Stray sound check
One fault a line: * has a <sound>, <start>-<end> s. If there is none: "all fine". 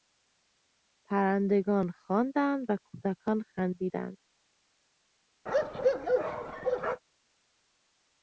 * has a bark, 5.5-7.0 s